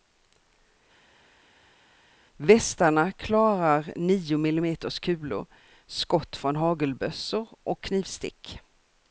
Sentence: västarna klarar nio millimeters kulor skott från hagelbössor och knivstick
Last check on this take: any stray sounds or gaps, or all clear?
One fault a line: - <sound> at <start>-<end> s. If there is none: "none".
none